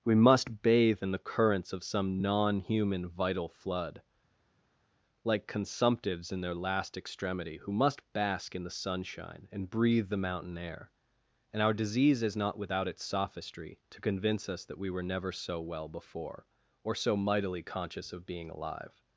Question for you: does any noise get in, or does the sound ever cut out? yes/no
no